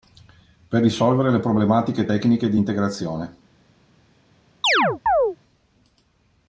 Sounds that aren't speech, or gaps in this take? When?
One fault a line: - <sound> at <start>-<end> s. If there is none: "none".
- chirp at 4.6-5.4 s